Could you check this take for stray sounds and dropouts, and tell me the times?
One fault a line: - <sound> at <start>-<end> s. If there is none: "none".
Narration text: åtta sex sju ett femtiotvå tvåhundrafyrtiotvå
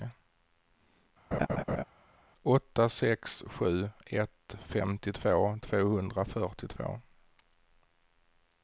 - laugh at 1.3-1.8 s